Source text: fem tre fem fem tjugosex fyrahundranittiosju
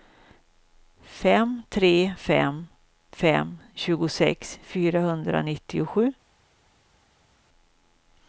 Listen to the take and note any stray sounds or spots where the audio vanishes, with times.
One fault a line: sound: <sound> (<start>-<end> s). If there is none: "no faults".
no faults